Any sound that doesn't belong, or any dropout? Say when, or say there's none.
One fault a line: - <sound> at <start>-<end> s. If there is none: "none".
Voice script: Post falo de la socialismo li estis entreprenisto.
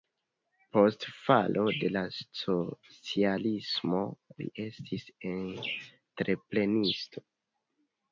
none